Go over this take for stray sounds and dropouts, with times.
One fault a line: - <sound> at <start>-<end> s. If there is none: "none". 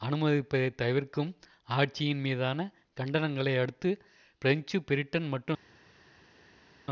none